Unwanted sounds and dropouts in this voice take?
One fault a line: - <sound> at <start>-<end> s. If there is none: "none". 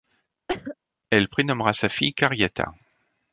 - cough at 0.5-0.8 s